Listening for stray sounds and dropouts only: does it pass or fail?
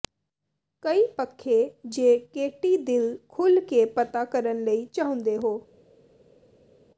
pass